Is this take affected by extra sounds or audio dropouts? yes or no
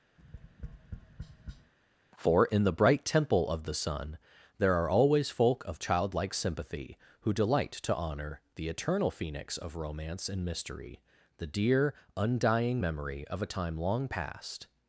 yes